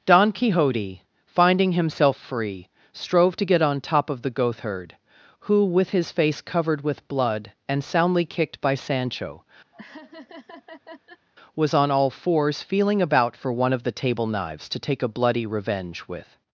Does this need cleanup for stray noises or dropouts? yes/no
yes